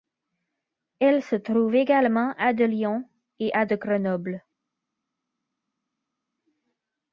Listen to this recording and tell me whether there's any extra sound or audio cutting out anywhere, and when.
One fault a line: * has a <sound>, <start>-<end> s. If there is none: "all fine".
all fine